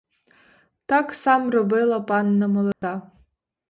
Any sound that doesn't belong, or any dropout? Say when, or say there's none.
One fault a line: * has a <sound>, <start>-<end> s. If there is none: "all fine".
* has a dropout, 2.7-2.8 s